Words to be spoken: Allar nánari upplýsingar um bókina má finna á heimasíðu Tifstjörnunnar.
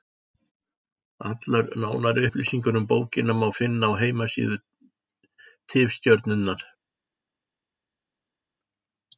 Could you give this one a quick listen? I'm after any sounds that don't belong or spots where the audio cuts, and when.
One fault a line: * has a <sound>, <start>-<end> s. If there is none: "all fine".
all fine